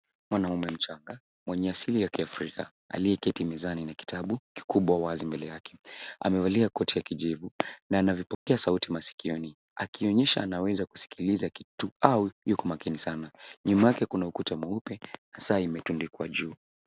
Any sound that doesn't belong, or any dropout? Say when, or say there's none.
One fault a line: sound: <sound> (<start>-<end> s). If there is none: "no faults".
sound: dropout (8.3-8.5 s)